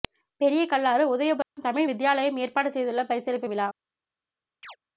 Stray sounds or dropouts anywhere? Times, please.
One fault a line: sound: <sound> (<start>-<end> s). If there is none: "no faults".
sound: dropout (1.4-1.6 s)
sound: chirp (4.6-4.8 s)